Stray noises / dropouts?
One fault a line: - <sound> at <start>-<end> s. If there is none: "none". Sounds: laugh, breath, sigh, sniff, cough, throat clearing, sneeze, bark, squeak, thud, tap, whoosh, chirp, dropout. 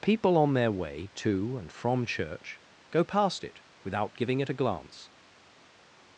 none